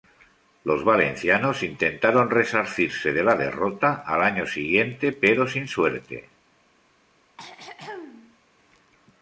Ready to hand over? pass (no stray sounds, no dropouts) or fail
fail